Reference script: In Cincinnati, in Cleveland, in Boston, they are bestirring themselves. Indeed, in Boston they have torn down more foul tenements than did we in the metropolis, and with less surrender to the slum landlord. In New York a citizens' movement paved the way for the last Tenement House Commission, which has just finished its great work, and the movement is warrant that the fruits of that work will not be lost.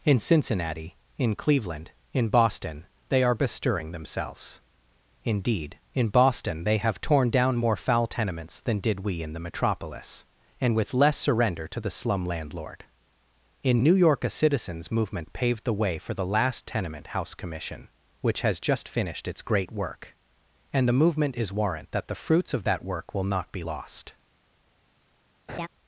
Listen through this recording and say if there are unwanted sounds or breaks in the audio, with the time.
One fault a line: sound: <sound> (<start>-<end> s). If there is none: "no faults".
sound: laugh (25.5-25.7 s)